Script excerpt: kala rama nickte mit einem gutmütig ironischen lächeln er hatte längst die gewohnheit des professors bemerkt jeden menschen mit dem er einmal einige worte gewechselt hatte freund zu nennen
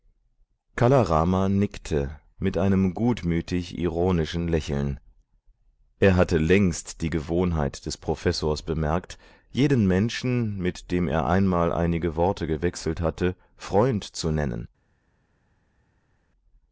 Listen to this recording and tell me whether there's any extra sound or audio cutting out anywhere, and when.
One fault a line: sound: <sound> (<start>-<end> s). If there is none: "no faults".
no faults